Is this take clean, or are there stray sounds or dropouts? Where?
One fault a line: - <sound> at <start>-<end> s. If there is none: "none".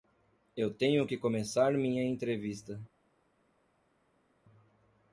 none